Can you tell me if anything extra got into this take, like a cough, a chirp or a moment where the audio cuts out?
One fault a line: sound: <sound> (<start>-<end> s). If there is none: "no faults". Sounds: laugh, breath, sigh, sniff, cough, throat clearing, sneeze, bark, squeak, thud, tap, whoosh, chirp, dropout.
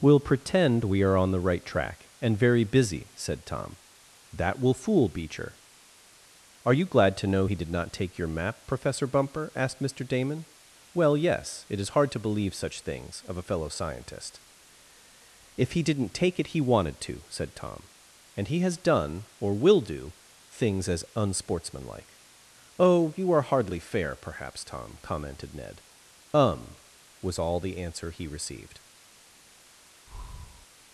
sound: breath (30.1-30.7 s)